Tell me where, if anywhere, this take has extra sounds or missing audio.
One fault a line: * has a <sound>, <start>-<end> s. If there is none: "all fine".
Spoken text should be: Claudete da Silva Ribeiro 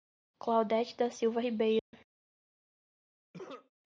* has a dropout, 1.8-1.9 s
* has a cough, 3.3-3.7 s